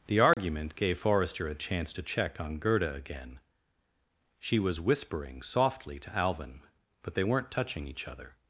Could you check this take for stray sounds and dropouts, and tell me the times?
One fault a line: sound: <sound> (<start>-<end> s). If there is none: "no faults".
sound: dropout (0.3-0.4 s)